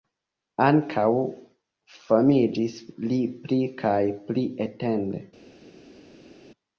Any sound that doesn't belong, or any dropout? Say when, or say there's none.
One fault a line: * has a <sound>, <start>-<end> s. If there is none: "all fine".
all fine